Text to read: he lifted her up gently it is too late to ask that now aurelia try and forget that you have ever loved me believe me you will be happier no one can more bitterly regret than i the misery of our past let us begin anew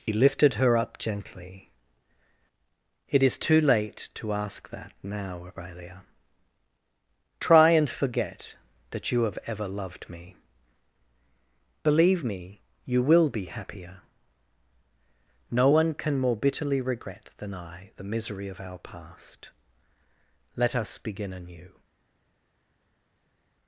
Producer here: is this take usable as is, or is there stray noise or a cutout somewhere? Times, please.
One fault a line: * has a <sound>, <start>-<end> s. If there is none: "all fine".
all fine